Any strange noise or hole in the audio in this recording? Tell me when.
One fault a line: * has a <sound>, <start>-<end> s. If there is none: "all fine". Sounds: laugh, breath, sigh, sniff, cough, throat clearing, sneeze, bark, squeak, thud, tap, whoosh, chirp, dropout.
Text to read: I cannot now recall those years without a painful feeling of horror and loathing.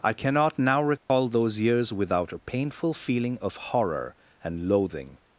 * has a dropout, 1.0-1.1 s